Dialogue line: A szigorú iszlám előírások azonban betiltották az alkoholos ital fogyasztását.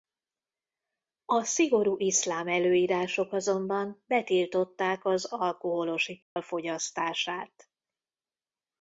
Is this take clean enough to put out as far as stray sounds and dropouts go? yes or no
no